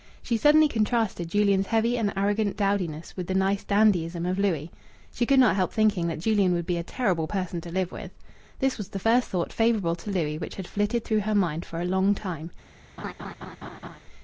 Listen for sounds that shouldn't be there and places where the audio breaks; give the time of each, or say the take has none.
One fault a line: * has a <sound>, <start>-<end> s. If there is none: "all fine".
* has a laugh, 13.0-14.0 s